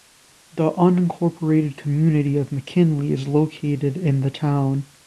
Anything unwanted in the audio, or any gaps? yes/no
no